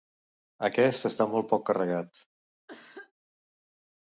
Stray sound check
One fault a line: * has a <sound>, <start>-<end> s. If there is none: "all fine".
* has a cough, 2.7-3.1 s